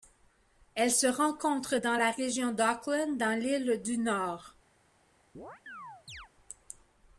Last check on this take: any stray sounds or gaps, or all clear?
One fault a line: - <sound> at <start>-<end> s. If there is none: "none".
- chirp at 5.3-6.3 s